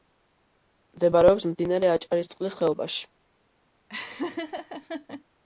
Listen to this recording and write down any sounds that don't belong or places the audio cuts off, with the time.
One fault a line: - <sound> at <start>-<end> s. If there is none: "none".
- laugh at 3.9-5.2 s